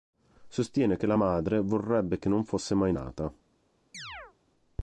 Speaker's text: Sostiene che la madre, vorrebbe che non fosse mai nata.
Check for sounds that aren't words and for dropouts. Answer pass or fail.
fail